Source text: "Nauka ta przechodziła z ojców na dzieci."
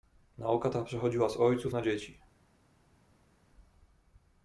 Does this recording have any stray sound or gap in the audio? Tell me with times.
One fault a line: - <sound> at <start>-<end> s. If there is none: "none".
none